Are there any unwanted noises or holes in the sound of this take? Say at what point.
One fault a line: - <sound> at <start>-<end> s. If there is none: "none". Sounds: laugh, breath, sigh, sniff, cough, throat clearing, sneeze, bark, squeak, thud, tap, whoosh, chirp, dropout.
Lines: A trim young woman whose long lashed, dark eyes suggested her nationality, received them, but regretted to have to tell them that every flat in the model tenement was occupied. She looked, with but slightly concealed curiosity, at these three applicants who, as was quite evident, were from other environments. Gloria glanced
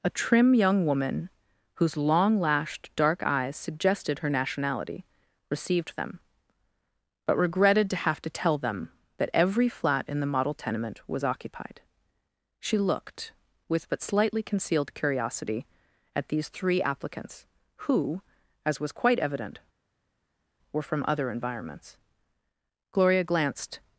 none